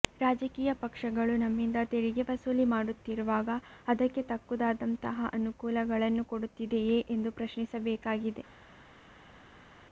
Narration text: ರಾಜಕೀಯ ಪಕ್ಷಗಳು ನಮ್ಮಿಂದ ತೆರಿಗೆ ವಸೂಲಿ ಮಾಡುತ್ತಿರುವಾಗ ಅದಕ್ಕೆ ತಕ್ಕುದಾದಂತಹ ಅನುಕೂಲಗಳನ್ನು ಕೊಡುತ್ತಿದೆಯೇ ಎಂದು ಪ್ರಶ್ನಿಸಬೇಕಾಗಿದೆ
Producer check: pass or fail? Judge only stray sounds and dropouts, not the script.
pass